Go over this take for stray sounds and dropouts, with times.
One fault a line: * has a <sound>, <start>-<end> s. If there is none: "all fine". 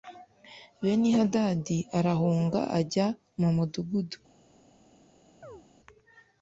* has a chirp, 5.4-5.6 s